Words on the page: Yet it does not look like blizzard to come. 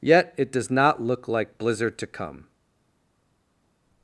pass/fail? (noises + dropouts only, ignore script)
pass